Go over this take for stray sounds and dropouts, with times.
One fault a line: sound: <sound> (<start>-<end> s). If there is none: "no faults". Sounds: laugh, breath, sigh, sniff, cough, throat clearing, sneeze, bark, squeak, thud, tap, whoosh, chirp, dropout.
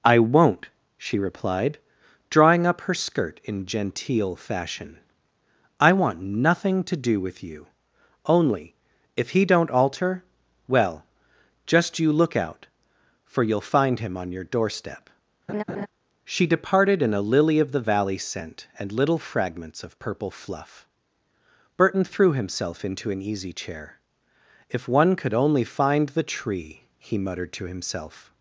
sound: laugh (15.5-15.9 s)